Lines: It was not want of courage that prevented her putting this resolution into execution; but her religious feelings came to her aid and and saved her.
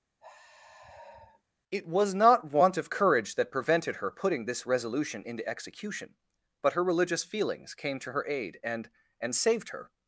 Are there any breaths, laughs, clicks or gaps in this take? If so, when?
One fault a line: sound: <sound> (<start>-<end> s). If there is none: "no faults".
sound: sigh (0.2-1.4 s)